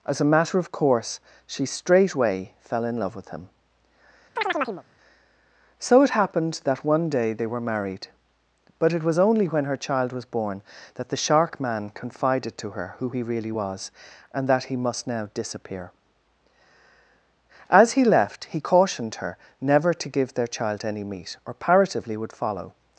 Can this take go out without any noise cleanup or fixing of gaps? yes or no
no